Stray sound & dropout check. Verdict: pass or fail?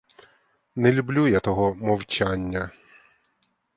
pass